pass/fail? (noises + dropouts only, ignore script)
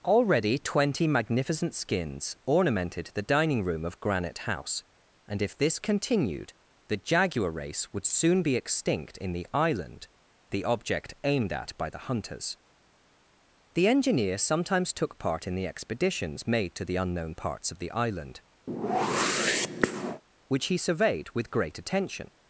fail